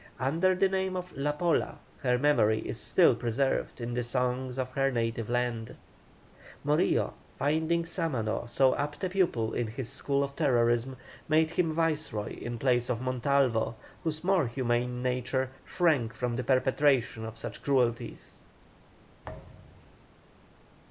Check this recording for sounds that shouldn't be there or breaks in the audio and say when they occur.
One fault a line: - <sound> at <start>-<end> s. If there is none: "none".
- thud at 19.2-20.1 s